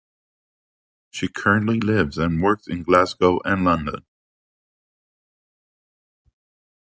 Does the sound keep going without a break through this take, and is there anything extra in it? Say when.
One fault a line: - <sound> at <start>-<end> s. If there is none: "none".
none